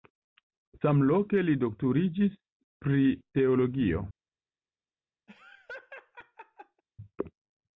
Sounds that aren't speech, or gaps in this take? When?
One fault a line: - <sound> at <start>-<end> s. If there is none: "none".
- laugh at 5.3-6.8 s